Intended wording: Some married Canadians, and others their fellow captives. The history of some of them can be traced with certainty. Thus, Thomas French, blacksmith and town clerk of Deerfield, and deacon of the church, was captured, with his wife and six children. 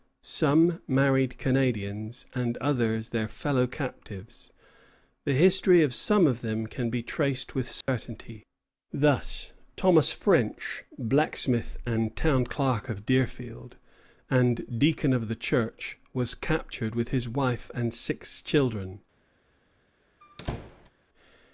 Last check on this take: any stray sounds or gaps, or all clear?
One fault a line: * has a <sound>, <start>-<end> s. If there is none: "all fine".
* has a dropout, 7.8-7.9 s
* has a squeak, 20.2-20.9 s